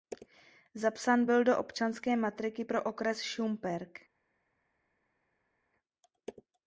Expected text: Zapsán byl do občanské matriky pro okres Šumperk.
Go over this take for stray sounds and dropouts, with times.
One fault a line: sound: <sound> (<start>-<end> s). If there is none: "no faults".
no faults